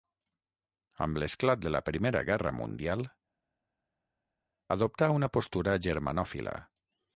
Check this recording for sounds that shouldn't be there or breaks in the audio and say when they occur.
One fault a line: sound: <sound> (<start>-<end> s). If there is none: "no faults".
no faults